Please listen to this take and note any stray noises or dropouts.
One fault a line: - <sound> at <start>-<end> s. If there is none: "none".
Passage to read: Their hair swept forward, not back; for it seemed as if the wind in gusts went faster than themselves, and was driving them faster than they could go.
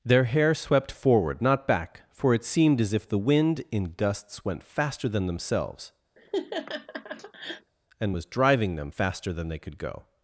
- laugh at 6.2-7.7 s